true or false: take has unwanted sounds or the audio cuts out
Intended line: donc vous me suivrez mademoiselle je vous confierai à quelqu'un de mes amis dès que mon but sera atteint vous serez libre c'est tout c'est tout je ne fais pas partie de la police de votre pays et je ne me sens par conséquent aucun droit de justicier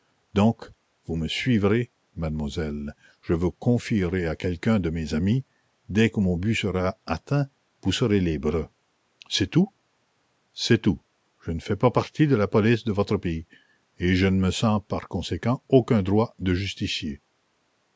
false